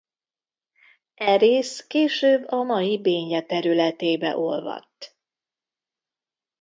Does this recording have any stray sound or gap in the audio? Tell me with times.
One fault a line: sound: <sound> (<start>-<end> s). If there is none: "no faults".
no faults